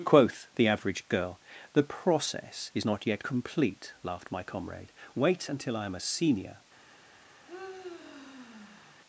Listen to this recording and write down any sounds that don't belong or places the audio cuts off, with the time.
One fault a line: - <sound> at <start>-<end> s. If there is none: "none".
- sigh at 7.5-9.0 s